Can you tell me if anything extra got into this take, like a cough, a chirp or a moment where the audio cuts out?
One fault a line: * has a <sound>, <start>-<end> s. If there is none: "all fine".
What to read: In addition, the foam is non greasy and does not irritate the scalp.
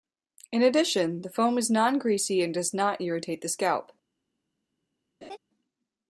* has a laugh, 5.2-5.4 s